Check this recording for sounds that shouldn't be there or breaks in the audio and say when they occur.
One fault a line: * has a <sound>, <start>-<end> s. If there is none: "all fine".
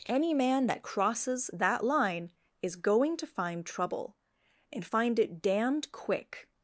all fine